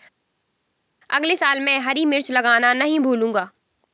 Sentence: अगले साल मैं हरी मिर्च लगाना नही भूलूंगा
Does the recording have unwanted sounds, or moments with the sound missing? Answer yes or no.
no